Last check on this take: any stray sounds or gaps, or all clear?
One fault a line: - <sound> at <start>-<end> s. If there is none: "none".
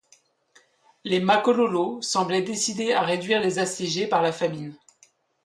none